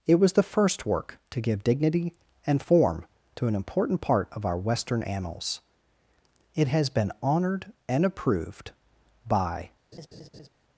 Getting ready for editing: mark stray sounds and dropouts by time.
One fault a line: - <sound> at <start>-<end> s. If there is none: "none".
- laugh at 9.9-10.5 s